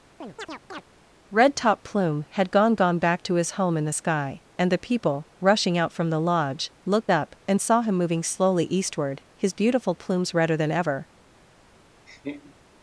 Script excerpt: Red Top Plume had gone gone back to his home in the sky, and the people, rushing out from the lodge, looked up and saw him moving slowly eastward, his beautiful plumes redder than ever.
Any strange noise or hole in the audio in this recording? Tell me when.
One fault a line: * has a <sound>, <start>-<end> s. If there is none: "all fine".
* has a chirp, 0.2-0.8 s
* has a laugh, 12.1-12.5 s